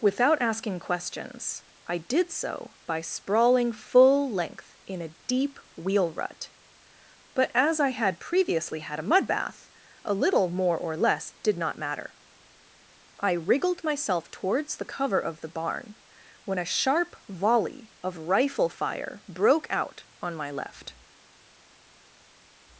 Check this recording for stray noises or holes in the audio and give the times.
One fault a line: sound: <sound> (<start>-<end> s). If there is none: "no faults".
no faults